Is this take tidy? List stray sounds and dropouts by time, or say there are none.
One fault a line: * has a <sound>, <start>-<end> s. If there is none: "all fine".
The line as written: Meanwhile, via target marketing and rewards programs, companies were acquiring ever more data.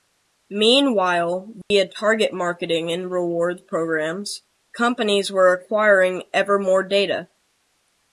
* has a dropout, 1.6-1.7 s